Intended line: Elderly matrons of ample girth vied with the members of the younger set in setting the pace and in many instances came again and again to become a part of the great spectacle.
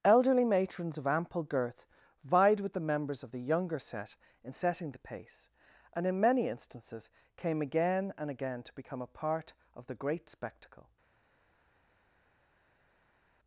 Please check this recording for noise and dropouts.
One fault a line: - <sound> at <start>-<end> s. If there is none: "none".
none